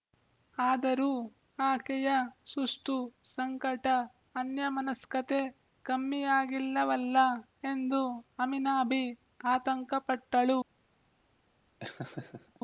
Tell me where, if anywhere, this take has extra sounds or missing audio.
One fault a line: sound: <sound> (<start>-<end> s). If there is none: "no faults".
sound: laugh (11.8-12.6 s)